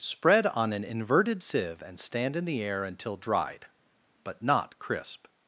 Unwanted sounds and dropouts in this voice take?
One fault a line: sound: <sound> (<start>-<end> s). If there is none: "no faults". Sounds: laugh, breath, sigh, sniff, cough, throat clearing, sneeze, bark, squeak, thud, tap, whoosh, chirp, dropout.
no faults